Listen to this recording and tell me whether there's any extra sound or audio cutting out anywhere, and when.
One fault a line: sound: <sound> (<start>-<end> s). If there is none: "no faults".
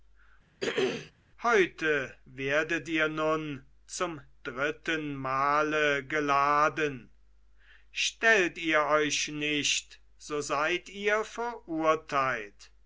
sound: throat clearing (0.6-1.1 s)